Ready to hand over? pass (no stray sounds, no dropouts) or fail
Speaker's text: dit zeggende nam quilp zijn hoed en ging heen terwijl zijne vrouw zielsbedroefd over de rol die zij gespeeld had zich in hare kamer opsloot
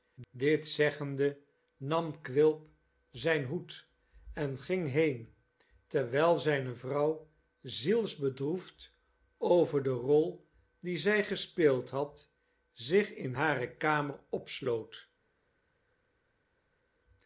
pass